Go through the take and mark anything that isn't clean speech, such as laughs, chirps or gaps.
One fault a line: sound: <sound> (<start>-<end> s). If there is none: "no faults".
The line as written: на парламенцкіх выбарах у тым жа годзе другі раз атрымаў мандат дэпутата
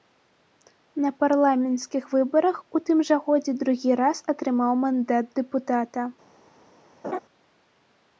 sound: laugh (7.0-7.2 s)